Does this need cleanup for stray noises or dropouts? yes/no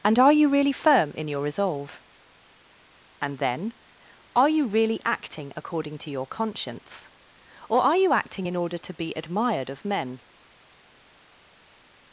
no